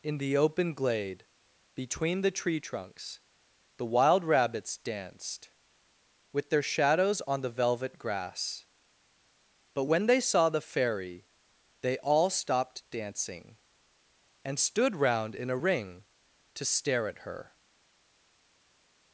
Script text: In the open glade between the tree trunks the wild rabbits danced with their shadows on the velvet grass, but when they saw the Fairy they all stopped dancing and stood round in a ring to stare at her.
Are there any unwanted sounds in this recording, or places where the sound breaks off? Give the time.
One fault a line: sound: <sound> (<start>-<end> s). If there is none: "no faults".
no faults